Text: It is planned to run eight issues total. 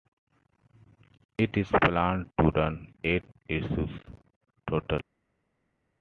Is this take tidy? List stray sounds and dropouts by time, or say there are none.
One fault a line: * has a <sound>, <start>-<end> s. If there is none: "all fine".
all fine